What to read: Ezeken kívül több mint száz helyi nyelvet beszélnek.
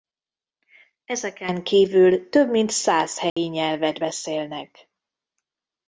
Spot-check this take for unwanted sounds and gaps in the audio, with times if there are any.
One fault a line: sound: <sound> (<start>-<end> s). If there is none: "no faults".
sound: dropout (3.3-3.4 s)